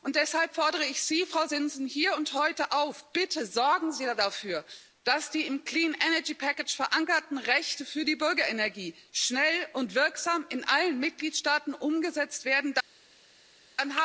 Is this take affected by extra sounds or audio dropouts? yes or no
no